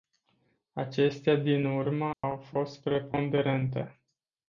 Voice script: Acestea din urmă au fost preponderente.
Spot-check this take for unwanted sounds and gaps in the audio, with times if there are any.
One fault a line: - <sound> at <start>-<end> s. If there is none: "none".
- dropout at 2.1-2.2 s